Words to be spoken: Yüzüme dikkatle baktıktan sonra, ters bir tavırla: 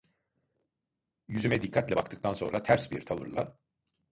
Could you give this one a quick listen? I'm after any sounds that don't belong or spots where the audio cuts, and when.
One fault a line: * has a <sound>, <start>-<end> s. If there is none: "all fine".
all fine